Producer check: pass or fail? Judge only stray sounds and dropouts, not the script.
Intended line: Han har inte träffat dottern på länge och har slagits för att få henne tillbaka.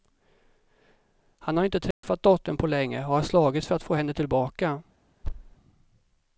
fail